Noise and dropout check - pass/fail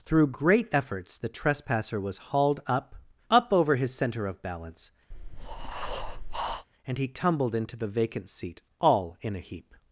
fail